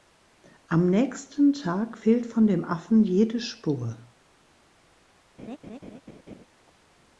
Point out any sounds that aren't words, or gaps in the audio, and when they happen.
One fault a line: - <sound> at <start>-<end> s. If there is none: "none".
- laugh at 5.4-6.5 s